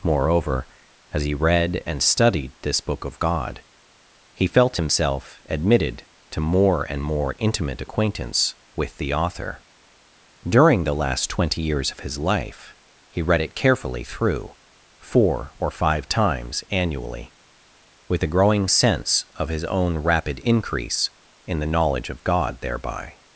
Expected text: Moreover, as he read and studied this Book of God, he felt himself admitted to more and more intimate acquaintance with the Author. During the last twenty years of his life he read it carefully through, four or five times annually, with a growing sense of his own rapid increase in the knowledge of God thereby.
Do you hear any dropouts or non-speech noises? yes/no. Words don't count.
no